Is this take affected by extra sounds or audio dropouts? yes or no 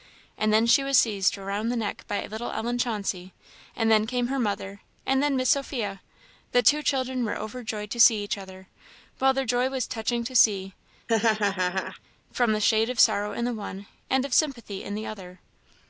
yes